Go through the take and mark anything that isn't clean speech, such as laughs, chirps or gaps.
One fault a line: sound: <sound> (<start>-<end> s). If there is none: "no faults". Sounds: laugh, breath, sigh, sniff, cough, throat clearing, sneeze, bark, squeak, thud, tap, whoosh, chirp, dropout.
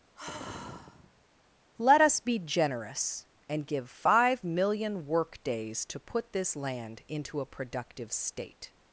sound: sigh (0.2-1.2 s)